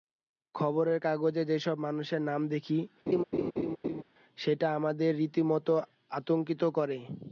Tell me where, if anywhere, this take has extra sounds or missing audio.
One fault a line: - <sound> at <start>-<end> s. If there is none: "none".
- laugh at 3.1-4.0 s